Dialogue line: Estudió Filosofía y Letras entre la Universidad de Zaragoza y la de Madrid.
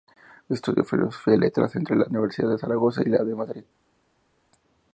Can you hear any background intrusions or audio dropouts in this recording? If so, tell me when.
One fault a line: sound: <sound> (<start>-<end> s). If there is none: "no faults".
no faults